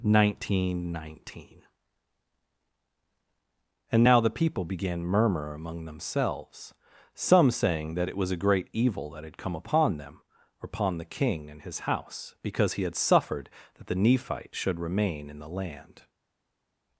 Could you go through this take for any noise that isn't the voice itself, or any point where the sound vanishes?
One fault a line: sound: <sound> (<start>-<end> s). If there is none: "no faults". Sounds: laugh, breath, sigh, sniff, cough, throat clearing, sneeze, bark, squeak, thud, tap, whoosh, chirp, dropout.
no faults